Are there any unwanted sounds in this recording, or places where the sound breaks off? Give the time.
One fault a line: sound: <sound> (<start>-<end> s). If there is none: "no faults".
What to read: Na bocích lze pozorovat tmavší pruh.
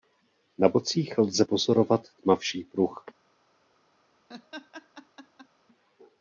sound: laugh (4.3-5.5 s)